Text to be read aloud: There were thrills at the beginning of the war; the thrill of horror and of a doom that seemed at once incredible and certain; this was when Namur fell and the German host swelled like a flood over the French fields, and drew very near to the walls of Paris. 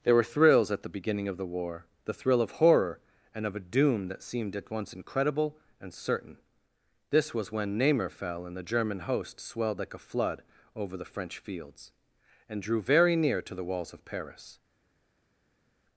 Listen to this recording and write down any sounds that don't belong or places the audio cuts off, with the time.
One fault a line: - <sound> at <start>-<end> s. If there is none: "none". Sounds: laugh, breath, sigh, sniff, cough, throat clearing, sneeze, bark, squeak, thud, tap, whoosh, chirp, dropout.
none